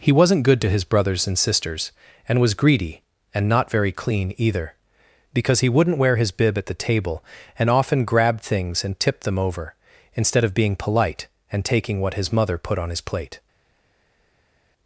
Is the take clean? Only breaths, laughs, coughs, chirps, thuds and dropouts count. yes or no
yes